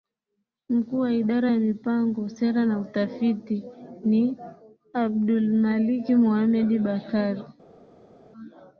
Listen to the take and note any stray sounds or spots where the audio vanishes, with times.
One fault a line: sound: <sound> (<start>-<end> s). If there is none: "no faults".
no faults